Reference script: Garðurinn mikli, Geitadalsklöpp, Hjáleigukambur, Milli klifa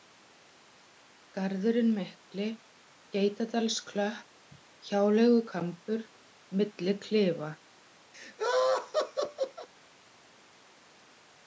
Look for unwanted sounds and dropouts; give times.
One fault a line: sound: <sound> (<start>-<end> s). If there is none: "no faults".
sound: laugh (8.1-9.7 s)